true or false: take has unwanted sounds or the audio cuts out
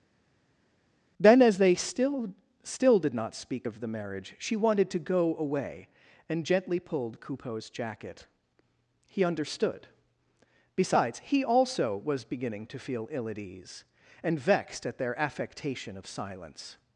false